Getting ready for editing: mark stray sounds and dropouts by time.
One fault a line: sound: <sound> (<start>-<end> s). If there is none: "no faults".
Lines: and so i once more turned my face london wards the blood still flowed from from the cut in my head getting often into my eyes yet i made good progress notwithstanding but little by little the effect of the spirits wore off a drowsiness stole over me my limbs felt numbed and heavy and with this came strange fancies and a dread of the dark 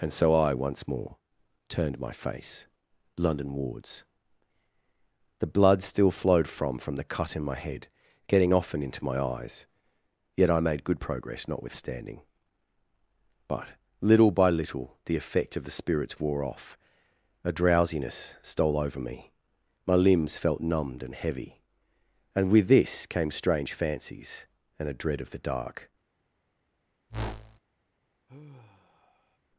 sound: whoosh (27.1-27.6 s)
sound: sigh (28.3-29.4 s)